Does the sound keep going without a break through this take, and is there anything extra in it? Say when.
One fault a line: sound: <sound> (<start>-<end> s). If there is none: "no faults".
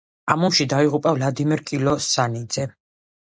no faults